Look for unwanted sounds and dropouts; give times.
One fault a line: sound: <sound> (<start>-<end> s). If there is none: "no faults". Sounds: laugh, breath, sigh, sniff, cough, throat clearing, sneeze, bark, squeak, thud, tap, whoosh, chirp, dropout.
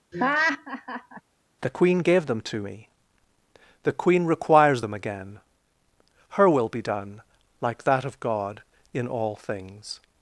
sound: laugh (0.1-1.2 s)